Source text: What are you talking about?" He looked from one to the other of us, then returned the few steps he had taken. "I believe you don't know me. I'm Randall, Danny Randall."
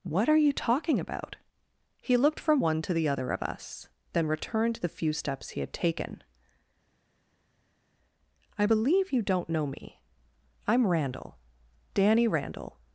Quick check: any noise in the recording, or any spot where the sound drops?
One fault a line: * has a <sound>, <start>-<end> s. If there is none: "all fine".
all fine